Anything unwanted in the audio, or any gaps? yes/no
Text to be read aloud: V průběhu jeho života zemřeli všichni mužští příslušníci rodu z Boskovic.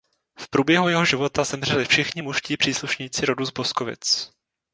no